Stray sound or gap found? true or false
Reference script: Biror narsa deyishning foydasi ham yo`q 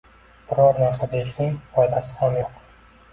false